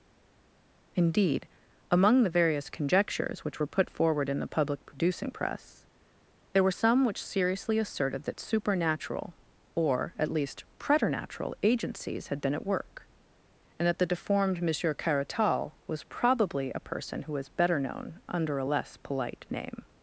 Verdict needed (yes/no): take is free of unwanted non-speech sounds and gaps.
yes